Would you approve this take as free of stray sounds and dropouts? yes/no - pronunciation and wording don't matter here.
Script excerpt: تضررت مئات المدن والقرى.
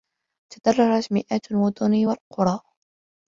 yes